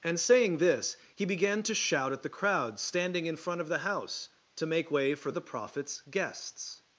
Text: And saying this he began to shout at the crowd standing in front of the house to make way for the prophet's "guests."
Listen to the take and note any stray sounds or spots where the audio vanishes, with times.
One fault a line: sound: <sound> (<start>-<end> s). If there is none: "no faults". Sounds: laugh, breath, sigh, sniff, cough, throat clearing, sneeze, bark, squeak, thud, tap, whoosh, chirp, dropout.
no faults